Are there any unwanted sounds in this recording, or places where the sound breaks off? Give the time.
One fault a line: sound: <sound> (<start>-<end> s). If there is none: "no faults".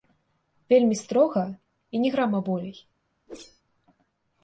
sound: whoosh (3.3-3.6 s)